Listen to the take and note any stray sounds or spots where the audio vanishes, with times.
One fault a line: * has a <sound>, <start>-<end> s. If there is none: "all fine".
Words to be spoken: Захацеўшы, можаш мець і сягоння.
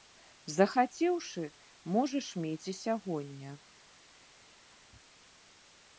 all fine